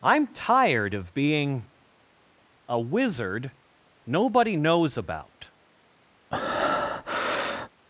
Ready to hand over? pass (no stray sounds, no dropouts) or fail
fail